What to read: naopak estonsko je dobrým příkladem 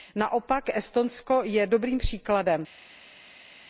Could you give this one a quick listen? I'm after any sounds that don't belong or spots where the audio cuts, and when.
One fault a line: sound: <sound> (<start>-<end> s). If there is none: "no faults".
no faults